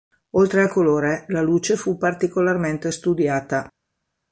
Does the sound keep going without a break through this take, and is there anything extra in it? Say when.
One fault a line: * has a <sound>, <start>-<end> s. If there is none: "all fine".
all fine